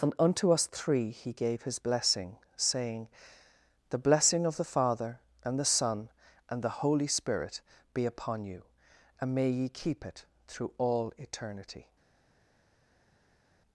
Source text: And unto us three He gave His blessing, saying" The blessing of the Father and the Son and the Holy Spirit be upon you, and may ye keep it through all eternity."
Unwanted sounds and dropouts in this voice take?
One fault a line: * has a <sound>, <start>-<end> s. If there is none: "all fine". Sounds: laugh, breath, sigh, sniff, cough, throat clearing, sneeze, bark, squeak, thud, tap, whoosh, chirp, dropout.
all fine